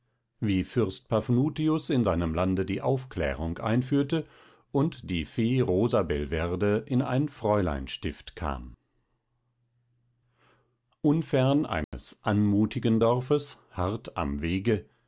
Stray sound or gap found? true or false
true